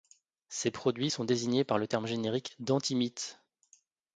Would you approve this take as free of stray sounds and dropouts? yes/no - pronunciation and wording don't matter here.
yes